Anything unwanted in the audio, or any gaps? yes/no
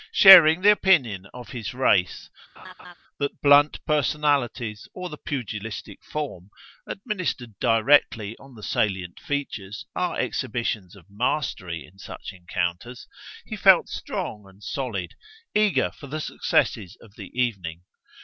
yes